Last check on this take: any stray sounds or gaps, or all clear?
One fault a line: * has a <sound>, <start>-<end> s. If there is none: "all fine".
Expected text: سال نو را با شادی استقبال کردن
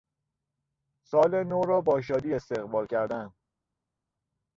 all fine